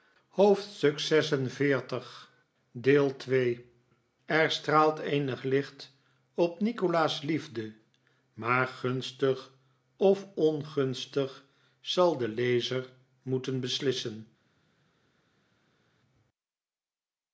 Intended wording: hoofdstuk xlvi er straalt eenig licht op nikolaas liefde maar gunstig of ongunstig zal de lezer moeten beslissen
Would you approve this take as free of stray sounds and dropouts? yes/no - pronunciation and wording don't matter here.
yes